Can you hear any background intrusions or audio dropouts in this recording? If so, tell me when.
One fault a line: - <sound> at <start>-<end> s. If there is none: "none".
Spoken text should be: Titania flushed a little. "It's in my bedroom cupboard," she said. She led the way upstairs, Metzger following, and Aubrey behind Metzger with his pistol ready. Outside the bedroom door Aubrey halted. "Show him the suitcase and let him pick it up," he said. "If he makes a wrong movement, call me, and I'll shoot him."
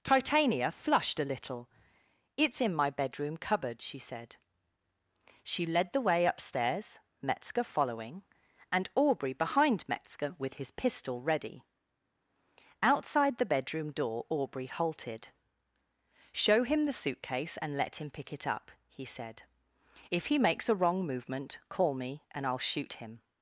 none